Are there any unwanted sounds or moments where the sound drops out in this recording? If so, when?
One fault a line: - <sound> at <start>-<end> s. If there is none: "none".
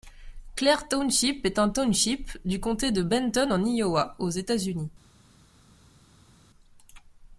none